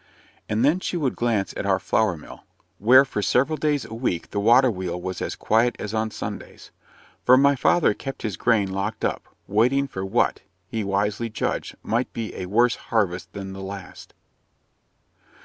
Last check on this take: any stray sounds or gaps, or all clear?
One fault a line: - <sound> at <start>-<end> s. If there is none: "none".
none